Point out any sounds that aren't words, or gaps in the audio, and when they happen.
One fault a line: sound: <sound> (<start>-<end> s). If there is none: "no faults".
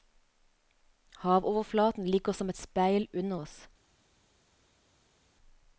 no faults